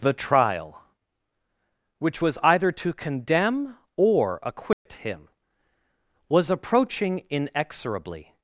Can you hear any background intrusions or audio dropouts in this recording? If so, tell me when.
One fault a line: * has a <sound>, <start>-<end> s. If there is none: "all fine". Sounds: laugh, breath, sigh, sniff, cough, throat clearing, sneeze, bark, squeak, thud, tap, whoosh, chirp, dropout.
* has a dropout, 4.7-4.9 s